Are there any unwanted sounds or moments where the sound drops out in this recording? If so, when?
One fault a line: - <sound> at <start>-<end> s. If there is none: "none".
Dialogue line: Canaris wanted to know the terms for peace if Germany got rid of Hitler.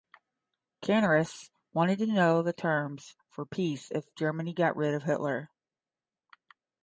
none